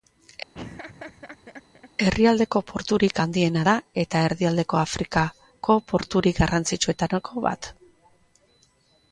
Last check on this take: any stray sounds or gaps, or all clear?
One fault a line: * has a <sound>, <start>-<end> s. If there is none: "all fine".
* has a laugh, 0.5-1.9 s